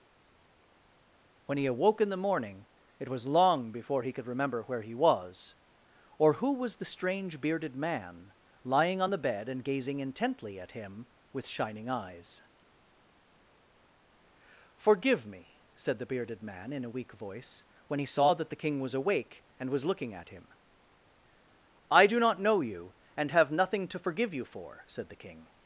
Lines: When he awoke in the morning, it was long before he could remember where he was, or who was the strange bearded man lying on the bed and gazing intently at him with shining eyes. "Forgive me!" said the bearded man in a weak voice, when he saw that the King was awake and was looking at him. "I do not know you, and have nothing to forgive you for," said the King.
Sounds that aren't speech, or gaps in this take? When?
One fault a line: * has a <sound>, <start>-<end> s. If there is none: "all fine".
all fine